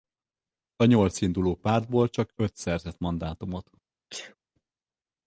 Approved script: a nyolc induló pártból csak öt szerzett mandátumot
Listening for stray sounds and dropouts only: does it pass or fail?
fail